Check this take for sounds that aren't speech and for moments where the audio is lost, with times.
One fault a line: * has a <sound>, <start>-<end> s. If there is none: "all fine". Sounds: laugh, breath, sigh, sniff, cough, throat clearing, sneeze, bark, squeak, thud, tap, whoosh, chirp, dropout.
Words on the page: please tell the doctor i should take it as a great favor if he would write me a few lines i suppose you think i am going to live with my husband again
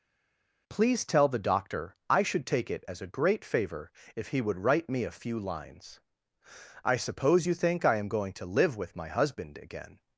all fine